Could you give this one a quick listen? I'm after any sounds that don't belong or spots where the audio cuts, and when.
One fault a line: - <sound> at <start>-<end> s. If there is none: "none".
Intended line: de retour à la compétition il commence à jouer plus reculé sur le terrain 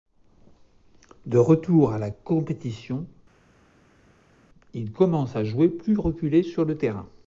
none